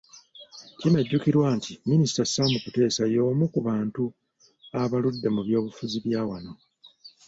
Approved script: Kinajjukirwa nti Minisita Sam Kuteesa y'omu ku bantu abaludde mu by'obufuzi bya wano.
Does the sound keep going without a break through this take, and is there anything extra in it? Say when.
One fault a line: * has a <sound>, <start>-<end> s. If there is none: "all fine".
all fine